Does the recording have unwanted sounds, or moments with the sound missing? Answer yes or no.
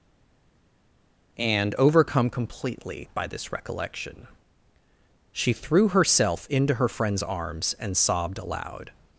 no